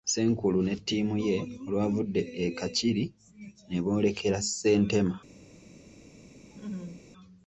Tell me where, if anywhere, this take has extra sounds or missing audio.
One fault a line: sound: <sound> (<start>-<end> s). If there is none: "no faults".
sound: laugh (6.5-7.1 s)